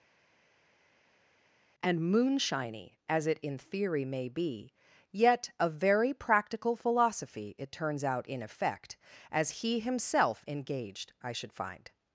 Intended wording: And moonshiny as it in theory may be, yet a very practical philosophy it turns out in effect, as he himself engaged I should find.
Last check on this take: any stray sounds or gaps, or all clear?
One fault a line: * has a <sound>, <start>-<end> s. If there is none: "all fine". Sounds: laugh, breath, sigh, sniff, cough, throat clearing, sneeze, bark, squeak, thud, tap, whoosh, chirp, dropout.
all fine